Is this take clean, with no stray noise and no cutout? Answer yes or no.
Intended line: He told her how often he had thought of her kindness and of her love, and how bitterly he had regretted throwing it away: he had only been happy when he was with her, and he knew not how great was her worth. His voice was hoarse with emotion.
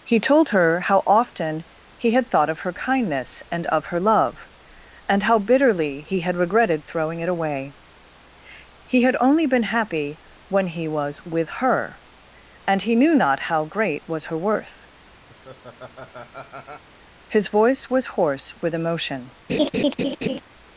no